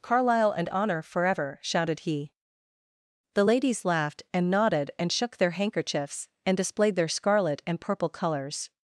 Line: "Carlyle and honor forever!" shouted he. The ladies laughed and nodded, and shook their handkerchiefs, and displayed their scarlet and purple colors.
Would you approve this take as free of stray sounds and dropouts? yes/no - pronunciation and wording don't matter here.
yes